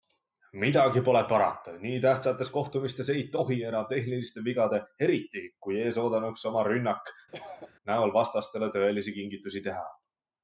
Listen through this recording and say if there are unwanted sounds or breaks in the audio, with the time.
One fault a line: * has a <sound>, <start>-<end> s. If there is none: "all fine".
* has a cough, 7.3-7.7 s